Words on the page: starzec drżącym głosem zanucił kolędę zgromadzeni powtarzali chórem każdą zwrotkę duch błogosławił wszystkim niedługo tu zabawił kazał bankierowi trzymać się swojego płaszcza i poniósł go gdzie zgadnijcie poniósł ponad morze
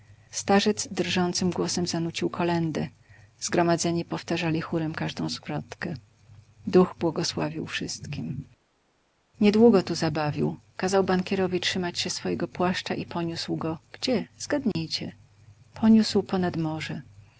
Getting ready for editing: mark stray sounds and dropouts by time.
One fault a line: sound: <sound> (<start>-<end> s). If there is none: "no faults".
sound: dropout (14.7-14.8 s)